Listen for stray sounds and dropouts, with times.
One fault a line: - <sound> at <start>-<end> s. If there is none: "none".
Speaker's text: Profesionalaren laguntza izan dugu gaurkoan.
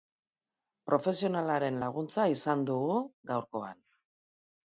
none